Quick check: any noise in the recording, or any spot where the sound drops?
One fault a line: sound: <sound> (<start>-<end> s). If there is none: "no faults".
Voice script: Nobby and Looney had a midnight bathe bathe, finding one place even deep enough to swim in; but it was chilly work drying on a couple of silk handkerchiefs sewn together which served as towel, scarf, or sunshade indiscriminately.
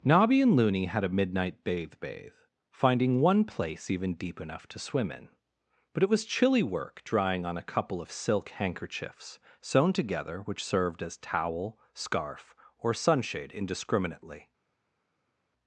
no faults